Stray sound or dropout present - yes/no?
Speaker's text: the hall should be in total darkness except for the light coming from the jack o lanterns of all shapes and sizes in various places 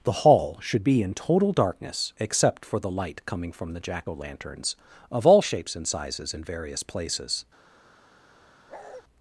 yes